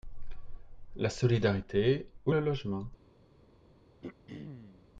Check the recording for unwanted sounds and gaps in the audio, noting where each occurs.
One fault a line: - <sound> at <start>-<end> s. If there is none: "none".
- throat clearing at 4.0-4.9 s